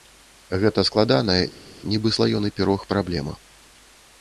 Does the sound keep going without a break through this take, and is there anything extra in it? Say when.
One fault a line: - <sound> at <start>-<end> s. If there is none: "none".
none